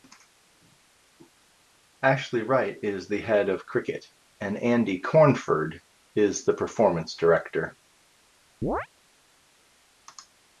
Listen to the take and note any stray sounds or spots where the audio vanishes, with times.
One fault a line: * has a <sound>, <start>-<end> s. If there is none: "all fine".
* has a chirp, 8.6-8.9 s